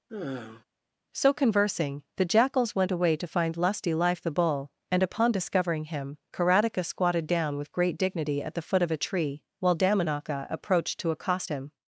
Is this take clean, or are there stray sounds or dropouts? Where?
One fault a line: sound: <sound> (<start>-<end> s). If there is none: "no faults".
sound: sigh (0.1-0.6 s)